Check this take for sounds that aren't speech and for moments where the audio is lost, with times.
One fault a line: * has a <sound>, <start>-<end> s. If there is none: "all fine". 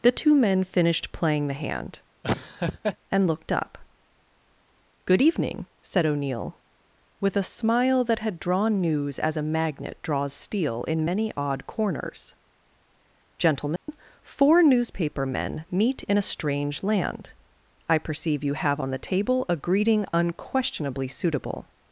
* has a laugh, 2.2-3.0 s
* has a dropout, 13.8-13.9 s